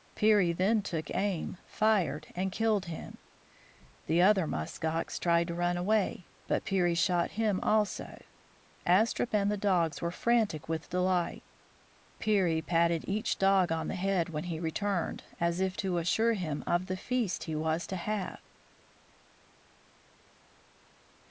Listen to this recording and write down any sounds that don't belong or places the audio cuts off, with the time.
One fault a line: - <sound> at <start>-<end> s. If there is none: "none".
none